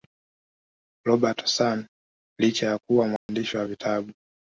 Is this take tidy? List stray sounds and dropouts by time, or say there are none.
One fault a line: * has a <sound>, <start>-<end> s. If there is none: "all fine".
* has a dropout, 3.2-3.3 s